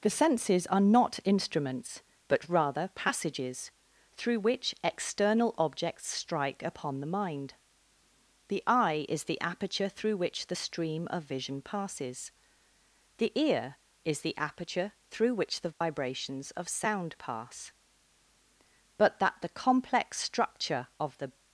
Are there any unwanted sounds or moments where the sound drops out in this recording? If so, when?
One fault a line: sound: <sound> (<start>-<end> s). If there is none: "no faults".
sound: dropout (15.7-15.8 s)